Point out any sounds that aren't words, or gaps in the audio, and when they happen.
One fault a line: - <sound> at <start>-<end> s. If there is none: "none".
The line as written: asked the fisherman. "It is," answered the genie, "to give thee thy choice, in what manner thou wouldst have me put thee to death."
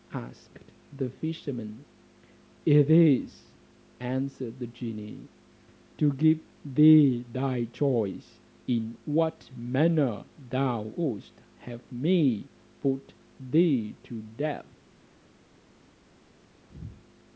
none